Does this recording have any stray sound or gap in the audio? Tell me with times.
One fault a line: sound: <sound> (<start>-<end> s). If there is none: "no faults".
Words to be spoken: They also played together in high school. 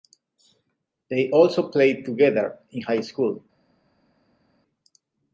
no faults